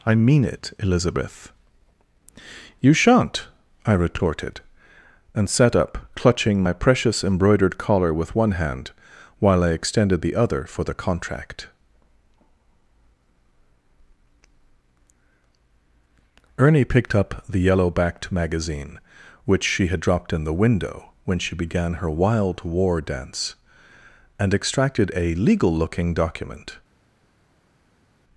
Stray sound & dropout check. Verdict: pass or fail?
pass